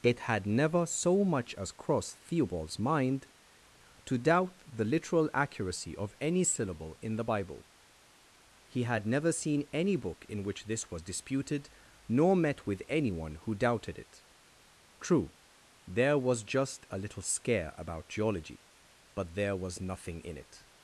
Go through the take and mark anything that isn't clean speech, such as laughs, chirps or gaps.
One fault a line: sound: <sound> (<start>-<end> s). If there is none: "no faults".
no faults